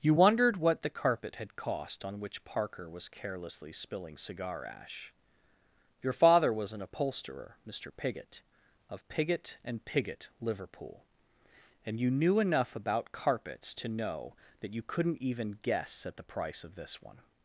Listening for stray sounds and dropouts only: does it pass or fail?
pass